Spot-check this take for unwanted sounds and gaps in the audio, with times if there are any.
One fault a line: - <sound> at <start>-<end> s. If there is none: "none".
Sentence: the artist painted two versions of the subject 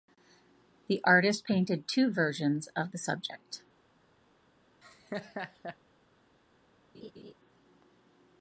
- laugh at 4.8-5.8 s
- laugh at 6.9-7.3 s